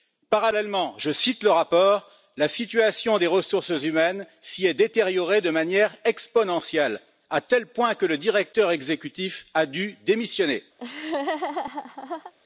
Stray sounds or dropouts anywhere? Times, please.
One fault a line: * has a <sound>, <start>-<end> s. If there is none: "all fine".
* has a laugh, 10.8-12.3 s